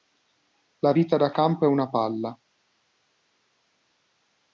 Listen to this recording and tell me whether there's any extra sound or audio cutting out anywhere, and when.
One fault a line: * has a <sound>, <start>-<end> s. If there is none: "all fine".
all fine